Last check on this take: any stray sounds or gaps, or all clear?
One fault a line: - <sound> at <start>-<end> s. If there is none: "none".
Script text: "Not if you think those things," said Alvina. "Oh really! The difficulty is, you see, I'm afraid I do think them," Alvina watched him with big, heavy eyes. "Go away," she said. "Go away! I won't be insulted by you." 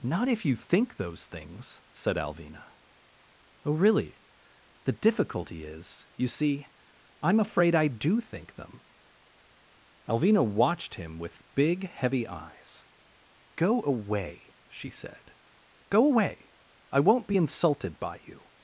none